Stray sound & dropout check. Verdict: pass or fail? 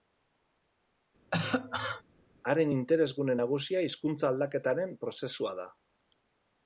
fail